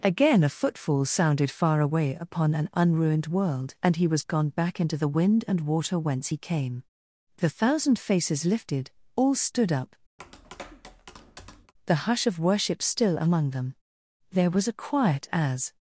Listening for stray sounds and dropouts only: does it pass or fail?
fail